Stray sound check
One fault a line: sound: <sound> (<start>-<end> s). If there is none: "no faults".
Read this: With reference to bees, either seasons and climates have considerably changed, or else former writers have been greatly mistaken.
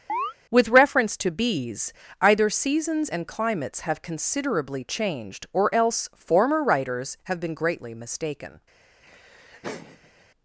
sound: chirp (0.1-0.3 s)
sound: laugh (9.0-10.3 s)